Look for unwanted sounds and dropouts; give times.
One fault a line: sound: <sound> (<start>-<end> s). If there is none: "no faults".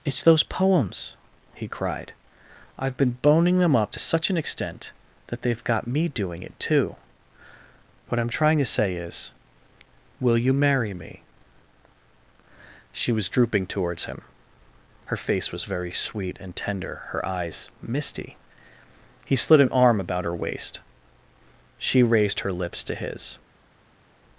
no faults